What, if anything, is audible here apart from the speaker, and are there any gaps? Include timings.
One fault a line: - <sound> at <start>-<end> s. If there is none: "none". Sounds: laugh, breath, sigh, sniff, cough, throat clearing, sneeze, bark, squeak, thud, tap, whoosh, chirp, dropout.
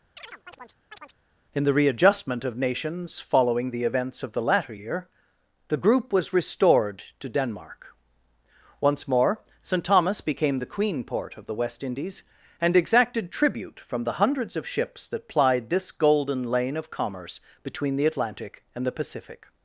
- chirp at 0.2-1.2 s